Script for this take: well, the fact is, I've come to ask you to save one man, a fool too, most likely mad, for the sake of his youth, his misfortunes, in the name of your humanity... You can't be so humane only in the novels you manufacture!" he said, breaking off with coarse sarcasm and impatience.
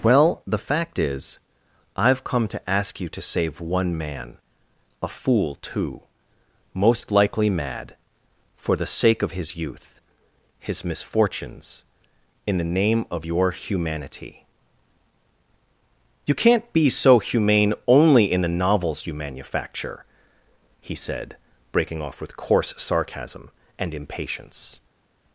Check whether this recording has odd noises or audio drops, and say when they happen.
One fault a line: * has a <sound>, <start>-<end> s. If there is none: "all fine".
all fine